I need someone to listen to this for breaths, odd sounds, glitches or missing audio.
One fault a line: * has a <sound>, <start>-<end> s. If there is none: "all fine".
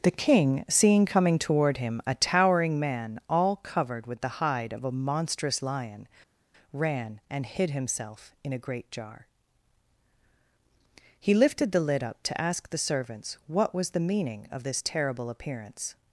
all fine